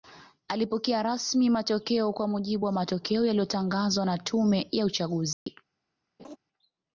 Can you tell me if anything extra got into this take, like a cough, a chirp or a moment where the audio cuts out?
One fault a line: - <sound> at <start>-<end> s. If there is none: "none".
- dropout at 5.3-5.5 s
- laugh at 6.2-6.4 s